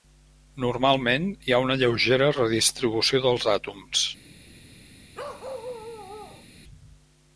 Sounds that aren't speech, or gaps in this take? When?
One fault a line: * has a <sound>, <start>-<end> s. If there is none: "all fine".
* has a bark, 5.1-6.5 s